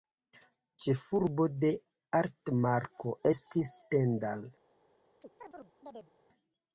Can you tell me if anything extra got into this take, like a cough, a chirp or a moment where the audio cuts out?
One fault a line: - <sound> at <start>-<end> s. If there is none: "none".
- chirp at 5.2-6.1 s